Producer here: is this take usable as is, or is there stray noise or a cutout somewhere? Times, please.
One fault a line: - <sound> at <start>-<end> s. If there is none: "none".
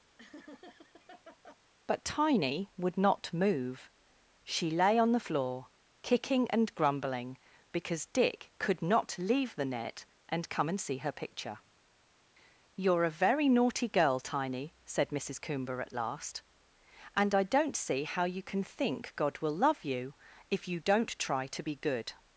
- laugh at 0.2-1.6 s